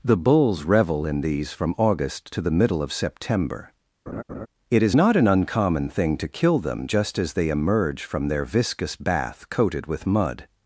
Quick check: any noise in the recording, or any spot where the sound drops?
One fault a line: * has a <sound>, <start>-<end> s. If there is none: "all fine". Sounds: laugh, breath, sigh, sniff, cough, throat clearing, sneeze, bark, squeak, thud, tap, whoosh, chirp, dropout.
* has a laugh, 4.1-4.5 s